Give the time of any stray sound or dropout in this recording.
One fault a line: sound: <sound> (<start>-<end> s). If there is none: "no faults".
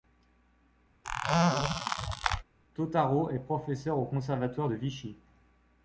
sound: squeak (1.0-2.4 s)